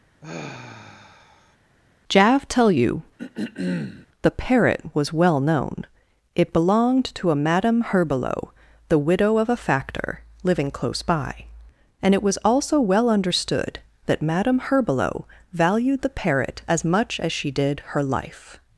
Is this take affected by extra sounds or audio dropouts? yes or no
yes